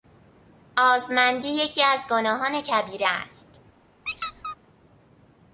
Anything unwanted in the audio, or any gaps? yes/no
yes